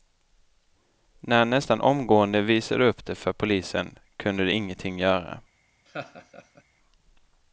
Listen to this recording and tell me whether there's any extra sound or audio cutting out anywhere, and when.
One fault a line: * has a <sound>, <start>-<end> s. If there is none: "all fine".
* has a laugh, 5.9-6.6 s